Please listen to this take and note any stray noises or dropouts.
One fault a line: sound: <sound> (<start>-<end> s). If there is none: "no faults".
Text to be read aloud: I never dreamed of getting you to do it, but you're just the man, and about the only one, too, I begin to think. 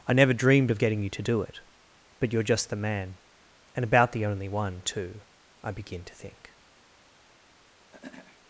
sound: throat clearing (7.9-8.4 s)